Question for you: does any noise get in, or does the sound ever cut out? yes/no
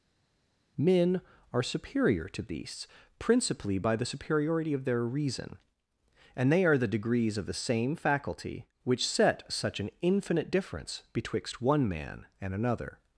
no